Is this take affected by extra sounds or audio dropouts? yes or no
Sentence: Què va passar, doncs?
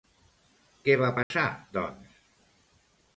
yes